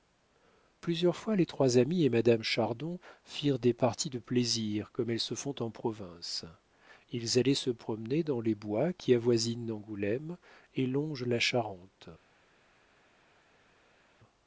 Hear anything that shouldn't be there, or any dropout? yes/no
no